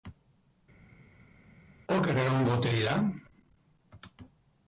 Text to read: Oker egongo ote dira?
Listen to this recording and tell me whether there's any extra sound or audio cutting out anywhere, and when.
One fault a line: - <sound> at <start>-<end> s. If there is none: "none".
none